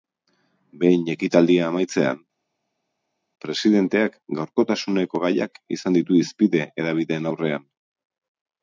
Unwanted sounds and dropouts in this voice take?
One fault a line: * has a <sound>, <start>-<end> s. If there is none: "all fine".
all fine